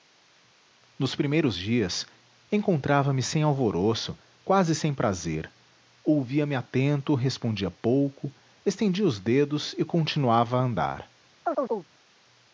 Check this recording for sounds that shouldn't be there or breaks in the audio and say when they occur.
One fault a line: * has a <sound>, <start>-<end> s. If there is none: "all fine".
* has a chirp, 11.4-11.9 s